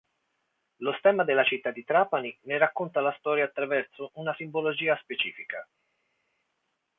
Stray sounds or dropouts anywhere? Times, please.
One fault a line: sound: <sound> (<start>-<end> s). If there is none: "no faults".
no faults